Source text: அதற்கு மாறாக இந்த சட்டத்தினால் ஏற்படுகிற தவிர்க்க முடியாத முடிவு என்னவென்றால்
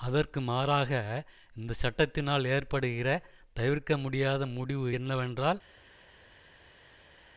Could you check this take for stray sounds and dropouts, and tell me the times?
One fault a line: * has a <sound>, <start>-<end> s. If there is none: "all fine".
all fine